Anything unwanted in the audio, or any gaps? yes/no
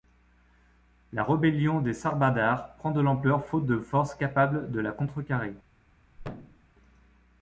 yes